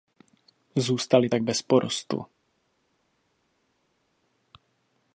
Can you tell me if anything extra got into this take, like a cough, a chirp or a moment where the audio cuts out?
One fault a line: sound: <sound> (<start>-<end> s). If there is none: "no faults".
no faults